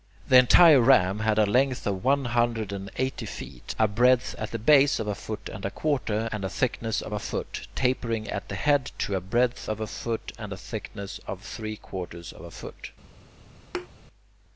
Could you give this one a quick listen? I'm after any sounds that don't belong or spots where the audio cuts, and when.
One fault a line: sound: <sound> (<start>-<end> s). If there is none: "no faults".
sound: thud (13.7-13.9 s)